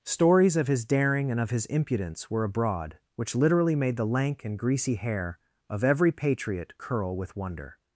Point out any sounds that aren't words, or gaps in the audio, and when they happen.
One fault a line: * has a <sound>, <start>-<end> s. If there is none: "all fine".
all fine